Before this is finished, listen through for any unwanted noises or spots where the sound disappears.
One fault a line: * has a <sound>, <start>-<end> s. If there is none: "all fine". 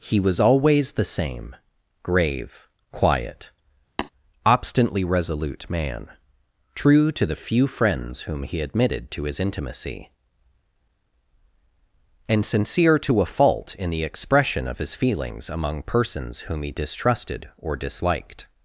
* has a tap, 4.0-4.1 s